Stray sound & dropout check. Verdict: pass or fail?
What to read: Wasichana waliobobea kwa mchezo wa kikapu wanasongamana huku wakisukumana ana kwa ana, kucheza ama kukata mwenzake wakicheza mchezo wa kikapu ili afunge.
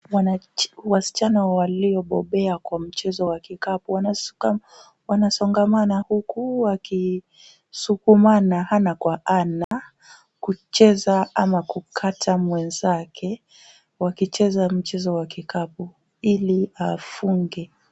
fail